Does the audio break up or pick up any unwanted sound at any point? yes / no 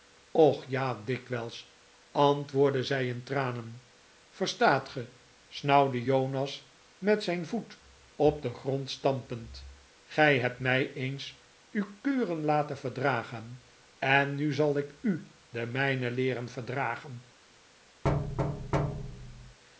yes